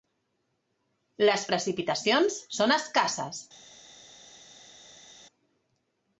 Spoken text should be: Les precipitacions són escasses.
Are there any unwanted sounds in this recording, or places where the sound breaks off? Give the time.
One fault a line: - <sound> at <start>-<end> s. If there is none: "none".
none